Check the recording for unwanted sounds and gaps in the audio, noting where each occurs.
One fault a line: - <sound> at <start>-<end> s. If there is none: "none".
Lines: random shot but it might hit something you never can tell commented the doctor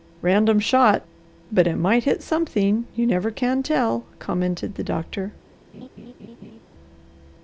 - laugh at 5.7-6.6 s